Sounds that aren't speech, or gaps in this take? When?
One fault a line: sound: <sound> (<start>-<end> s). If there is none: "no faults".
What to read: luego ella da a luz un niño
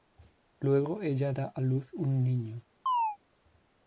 sound: chirp (2.9-3.2 s)